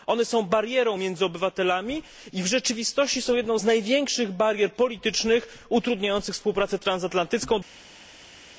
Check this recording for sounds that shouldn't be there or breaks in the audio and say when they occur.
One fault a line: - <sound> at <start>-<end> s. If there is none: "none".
none